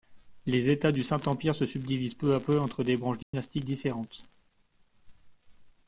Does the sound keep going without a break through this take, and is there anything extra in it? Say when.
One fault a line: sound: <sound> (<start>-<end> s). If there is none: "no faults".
sound: dropout (3.2-3.3 s)